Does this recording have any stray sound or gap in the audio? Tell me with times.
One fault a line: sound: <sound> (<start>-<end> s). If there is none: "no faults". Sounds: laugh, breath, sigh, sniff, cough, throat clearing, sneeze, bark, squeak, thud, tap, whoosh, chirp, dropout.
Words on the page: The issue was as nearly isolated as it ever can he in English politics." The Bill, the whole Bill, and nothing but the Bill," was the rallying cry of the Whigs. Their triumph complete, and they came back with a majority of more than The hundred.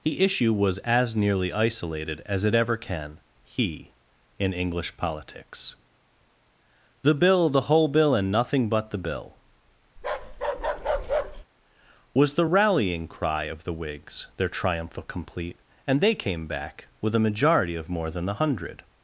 sound: bark (10.0-11.4 s)